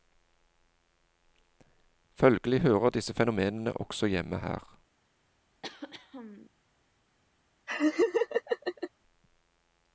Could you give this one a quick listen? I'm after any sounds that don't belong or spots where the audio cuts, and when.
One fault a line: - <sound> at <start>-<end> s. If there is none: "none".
- throat clearing at 5.6-6.5 s
- laugh at 7.7-8.9 s